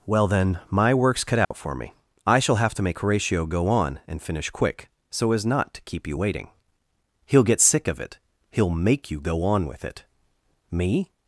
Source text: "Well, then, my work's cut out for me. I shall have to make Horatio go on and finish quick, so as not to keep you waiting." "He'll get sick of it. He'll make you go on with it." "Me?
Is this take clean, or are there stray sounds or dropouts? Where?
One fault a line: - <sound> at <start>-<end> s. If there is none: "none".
- dropout at 1.4-1.5 s